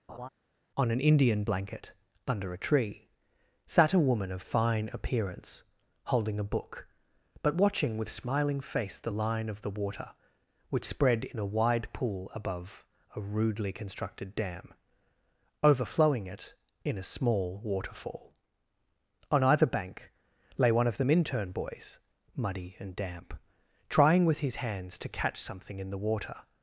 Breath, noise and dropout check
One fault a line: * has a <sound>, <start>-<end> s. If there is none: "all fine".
* has a laugh, 0.1-0.3 s